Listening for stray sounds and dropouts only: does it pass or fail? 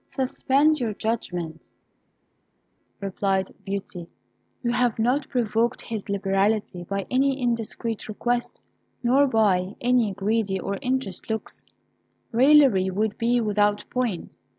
pass